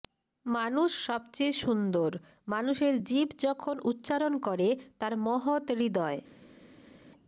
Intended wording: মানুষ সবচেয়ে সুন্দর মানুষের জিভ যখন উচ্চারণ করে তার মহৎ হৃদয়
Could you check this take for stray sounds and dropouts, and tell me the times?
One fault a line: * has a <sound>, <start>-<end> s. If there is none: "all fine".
all fine